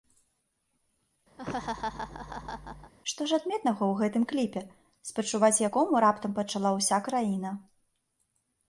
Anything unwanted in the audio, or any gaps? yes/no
yes